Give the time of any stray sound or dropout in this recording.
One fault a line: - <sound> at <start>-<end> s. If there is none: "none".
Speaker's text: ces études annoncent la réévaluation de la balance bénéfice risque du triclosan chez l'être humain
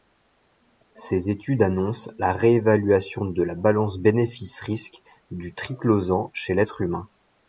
none